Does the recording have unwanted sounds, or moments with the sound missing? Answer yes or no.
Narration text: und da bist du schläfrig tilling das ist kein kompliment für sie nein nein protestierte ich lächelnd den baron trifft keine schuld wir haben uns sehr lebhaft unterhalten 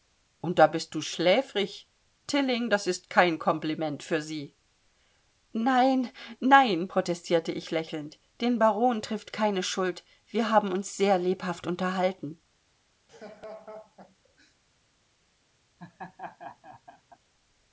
yes